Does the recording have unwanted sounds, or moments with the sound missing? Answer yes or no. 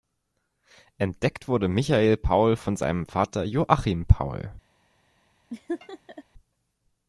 yes